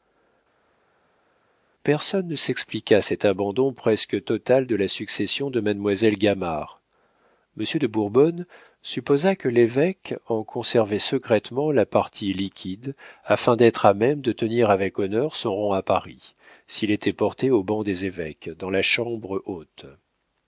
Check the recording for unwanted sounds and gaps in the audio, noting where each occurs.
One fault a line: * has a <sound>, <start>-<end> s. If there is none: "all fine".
all fine